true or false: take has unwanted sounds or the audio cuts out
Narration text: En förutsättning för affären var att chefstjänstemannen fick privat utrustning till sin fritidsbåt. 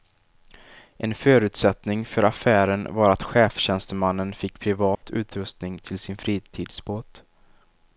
true